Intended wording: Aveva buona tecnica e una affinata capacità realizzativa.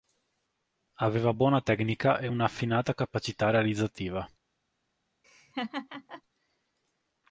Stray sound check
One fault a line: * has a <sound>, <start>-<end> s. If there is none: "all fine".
* has a laugh, 5.2-6.2 s